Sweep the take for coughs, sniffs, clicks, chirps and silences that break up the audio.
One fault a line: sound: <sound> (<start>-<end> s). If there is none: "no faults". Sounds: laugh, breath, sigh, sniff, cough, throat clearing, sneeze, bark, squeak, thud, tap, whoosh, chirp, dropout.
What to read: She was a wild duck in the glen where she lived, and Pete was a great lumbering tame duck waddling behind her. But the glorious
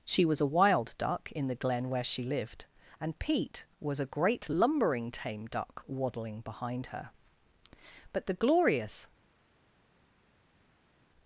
no faults